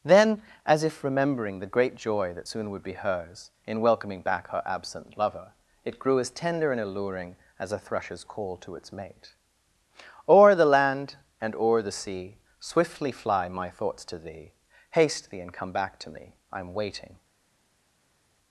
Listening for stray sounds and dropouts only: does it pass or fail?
pass